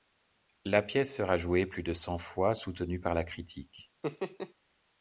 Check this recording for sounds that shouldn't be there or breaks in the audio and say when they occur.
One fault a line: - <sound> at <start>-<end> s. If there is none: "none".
- laugh at 4.0-4.5 s